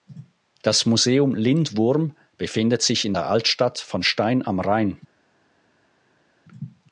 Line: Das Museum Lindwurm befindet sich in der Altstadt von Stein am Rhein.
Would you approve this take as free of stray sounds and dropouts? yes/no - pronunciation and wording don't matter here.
yes